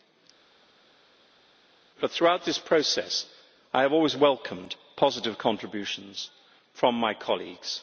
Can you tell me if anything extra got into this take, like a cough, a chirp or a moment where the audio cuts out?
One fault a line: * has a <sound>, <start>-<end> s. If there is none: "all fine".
all fine